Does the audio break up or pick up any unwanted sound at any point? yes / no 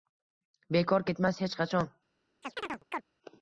yes